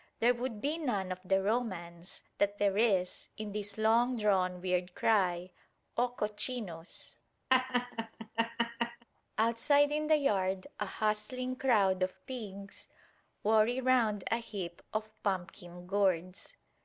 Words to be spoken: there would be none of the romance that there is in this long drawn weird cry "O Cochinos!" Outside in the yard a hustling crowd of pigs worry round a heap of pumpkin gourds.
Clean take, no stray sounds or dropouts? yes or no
no